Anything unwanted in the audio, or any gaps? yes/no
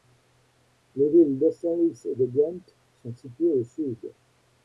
no